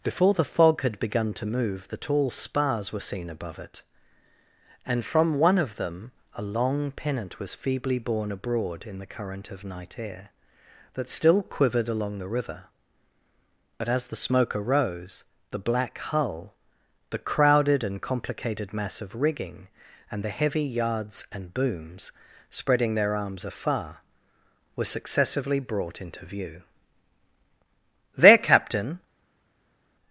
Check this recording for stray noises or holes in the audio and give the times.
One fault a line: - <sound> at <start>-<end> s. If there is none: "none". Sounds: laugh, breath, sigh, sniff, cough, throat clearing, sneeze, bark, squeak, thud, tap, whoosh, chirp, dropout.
none